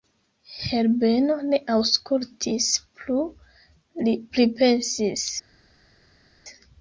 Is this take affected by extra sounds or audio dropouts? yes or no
no